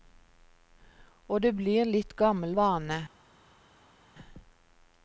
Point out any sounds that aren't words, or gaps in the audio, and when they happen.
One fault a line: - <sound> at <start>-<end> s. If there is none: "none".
none